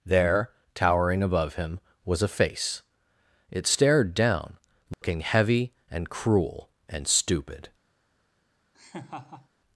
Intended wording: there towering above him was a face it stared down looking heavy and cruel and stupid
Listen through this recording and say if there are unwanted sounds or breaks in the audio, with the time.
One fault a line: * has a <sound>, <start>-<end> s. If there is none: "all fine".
* has a dropout, 4.9-5.0 s
* has a laugh, 8.7-9.5 s